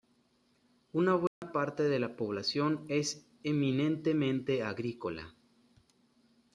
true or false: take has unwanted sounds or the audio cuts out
true